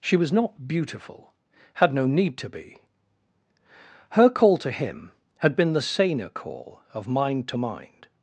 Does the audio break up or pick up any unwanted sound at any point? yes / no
no